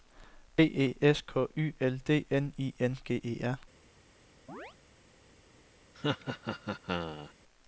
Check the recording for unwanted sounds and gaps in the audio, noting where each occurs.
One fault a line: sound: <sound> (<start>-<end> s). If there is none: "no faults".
sound: chirp (4.5-4.8 s)
sound: laugh (5.9-7.3 s)